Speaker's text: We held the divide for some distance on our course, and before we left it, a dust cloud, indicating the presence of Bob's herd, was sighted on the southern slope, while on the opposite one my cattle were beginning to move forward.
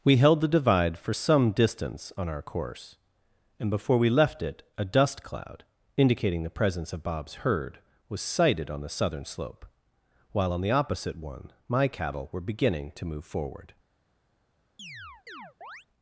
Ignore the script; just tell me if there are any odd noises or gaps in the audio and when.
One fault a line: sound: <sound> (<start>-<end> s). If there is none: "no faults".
sound: chirp (14.8-15.9 s)